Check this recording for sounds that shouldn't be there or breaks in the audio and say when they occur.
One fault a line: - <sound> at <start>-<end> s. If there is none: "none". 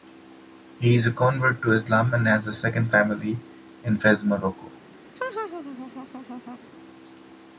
- laugh at 5.2-6.6 s